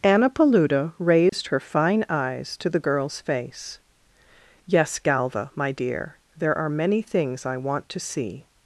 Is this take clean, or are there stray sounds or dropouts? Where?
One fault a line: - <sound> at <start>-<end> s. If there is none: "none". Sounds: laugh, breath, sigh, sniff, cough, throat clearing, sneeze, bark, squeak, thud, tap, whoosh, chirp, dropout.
- dropout at 1.3-1.3 s